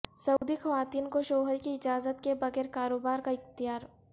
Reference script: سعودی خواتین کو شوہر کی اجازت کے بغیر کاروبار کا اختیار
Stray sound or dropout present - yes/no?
yes